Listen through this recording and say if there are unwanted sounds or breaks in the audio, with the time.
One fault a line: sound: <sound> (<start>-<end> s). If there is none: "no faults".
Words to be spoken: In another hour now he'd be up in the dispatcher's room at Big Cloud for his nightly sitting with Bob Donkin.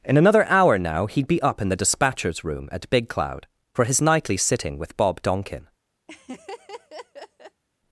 sound: laugh (6.1-7.6 s)